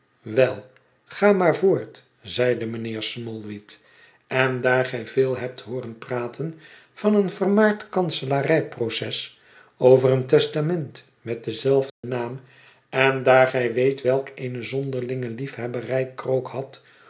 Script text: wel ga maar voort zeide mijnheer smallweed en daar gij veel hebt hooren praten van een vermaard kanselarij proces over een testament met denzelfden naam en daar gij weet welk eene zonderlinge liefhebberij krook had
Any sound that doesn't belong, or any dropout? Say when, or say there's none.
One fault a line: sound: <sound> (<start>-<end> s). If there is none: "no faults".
sound: dropout (11.9-12.0 s)